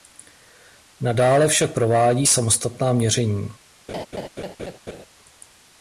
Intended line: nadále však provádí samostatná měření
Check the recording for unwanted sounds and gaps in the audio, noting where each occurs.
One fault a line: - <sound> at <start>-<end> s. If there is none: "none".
- laugh at 3.9-5.1 s